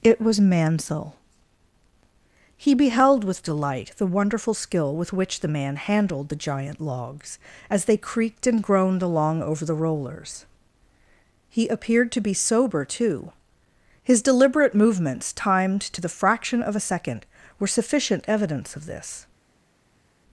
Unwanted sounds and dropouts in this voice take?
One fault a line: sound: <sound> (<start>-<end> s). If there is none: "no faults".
no faults